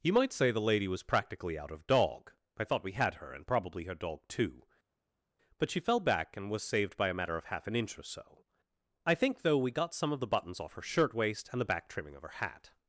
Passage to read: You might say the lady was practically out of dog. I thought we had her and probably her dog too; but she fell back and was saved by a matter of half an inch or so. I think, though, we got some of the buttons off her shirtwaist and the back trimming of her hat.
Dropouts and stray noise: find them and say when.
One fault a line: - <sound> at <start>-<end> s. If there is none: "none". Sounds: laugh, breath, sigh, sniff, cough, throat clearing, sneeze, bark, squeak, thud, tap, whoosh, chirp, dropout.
none